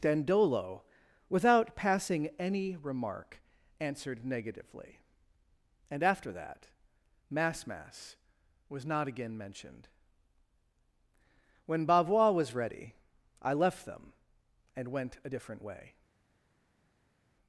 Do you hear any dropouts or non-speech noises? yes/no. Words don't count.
no